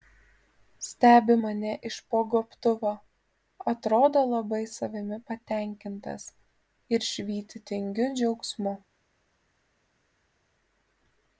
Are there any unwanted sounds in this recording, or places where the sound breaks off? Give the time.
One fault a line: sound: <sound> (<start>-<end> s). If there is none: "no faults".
no faults